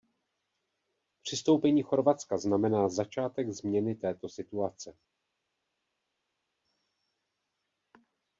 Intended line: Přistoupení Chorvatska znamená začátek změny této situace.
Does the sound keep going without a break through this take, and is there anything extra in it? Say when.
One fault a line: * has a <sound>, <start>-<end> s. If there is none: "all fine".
all fine